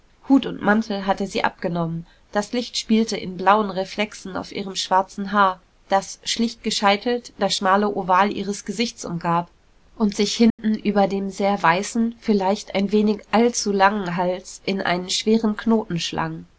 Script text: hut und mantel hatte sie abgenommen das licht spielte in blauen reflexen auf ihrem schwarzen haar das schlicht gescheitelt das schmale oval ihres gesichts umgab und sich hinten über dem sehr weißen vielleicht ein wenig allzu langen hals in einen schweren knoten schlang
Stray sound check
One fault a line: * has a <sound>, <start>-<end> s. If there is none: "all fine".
* has a dropout, 10.5-10.6 s